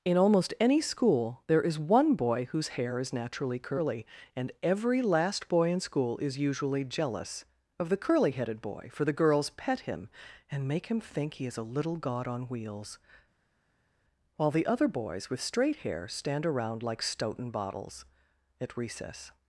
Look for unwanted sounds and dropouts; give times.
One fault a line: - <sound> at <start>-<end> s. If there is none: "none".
none